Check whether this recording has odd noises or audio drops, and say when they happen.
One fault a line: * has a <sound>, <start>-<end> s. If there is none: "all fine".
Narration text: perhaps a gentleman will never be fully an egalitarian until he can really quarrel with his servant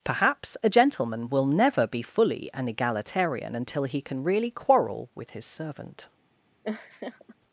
* has a laugh, 6.6-7.3 s